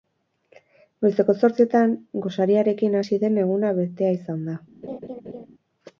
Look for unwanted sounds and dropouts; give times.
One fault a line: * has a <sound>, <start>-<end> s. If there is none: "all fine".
* has a laugh, 4.8-5.5 s